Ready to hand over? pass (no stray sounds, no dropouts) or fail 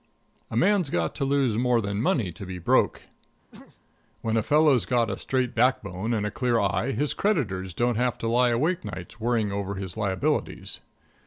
fail